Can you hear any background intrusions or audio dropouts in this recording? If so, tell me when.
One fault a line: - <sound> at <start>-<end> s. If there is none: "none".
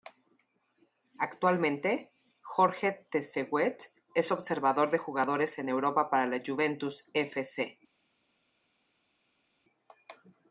none